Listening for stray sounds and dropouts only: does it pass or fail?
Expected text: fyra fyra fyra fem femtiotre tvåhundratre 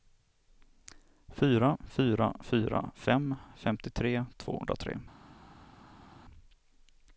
pass